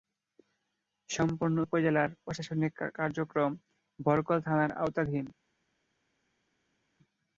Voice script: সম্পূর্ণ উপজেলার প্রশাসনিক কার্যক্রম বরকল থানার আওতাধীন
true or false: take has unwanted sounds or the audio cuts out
false